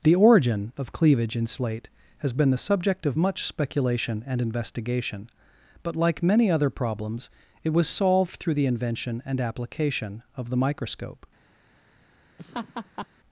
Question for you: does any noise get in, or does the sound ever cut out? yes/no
yes